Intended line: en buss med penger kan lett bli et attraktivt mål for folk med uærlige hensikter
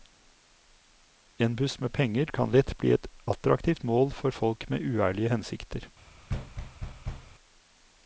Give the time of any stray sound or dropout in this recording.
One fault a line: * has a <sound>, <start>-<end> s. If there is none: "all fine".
* has a thud, 6.3-7.3 s